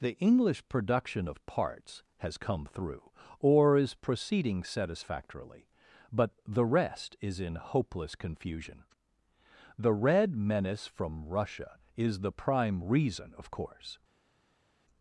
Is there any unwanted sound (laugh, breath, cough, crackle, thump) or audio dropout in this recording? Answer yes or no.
no